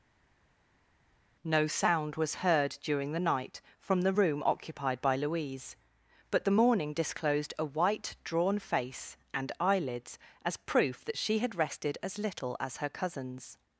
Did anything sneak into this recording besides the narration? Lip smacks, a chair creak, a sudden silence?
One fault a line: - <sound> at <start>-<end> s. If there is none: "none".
none